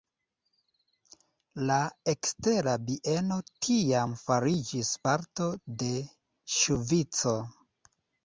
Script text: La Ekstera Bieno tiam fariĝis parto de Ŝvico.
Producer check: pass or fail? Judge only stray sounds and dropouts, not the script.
pass